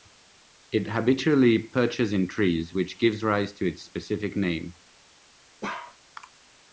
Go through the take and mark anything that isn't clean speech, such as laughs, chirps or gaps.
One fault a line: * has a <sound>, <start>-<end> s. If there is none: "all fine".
* has a bark, 5.6-6.0 s